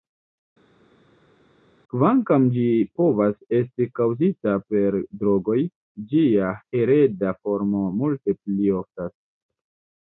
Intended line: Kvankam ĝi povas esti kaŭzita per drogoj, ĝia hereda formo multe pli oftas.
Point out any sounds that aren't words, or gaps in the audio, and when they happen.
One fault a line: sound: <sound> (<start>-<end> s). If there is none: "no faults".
no faults